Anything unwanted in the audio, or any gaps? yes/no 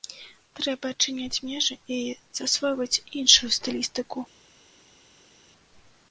no